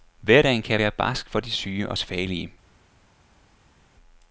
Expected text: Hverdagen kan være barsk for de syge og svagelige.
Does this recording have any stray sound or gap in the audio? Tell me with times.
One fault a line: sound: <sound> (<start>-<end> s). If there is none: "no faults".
no faults